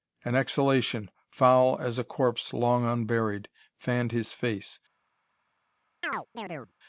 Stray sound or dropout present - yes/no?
yes